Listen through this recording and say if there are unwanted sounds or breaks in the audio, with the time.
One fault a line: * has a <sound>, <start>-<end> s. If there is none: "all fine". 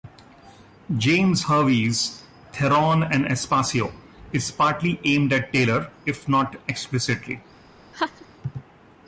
* has a laugh, 7.9-8.3 s